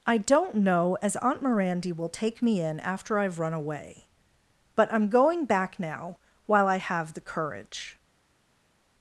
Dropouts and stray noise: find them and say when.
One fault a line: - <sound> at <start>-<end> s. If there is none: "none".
none